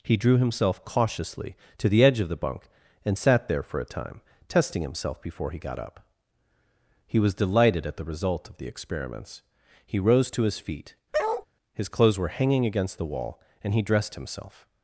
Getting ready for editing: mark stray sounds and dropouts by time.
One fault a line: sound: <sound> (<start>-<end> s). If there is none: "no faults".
sound: bark (11.1-11.5 s)